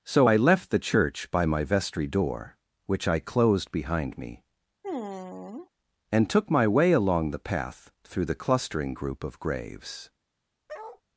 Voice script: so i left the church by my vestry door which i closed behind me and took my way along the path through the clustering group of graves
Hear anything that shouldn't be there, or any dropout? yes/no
yes